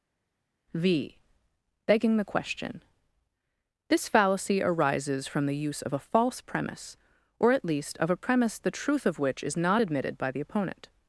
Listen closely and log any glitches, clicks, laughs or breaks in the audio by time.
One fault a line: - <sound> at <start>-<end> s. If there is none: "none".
none